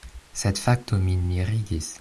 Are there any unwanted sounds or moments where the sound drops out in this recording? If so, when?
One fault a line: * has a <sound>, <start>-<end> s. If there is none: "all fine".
all fine